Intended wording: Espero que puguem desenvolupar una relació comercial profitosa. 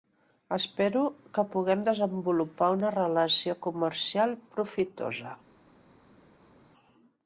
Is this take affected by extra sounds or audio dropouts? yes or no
no